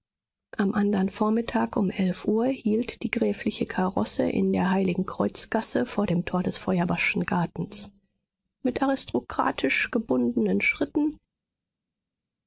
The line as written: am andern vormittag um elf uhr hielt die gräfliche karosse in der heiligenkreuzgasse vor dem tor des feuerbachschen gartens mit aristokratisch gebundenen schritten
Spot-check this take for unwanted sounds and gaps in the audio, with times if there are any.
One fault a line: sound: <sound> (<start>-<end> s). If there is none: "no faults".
no faults